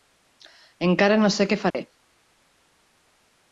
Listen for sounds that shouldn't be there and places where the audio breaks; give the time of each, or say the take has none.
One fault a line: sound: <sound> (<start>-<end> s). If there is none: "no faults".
sound: dropout (1.7-1.7 s)